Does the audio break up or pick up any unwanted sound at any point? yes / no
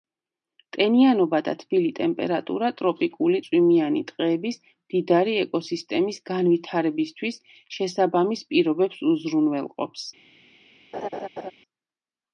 yes